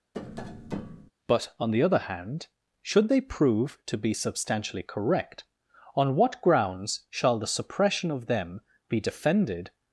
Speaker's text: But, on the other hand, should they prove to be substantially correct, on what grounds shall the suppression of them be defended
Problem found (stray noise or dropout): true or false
true